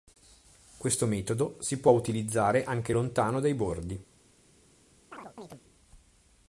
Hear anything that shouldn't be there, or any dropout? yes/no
yes